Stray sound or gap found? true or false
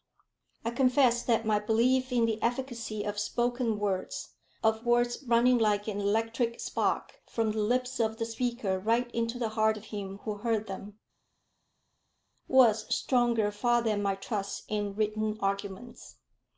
false